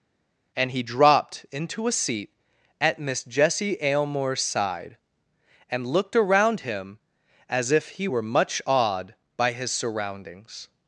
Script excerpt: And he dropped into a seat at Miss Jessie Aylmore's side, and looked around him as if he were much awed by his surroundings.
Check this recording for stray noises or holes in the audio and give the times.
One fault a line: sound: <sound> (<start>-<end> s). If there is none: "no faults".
no faults